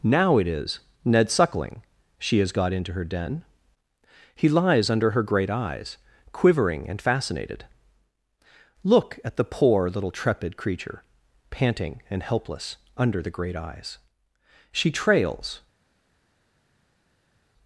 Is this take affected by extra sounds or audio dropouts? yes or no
no